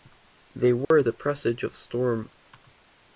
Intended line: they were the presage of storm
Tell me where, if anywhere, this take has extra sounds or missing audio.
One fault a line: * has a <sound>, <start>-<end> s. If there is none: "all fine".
* has a dropout, 0.8-0.9 s